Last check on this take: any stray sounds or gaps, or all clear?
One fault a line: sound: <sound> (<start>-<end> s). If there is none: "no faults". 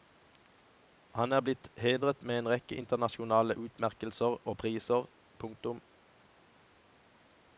no faults